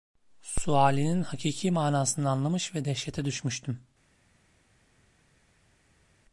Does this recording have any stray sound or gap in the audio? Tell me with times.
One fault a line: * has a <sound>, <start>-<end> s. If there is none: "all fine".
all fine